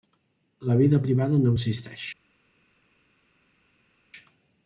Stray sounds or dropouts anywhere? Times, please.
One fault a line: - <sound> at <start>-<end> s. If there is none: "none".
none